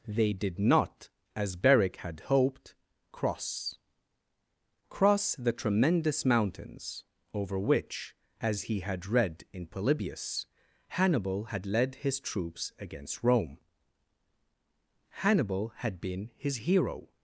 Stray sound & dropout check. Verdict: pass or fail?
pass